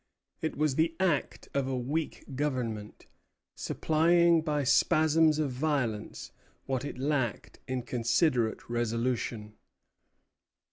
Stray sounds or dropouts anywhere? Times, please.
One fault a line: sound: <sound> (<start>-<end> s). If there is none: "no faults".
no faults